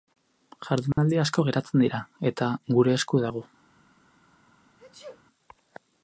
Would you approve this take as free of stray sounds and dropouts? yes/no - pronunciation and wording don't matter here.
no